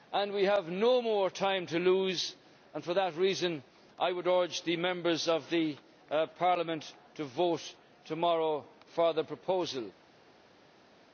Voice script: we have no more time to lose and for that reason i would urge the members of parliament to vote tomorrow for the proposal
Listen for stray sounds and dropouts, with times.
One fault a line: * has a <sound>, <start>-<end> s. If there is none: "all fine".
all fine